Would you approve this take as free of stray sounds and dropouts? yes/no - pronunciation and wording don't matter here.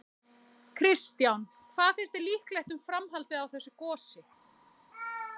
yes